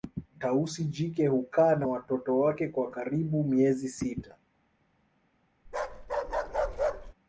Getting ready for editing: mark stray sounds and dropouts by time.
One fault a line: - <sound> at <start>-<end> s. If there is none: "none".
- bark at 5.7-7.1 s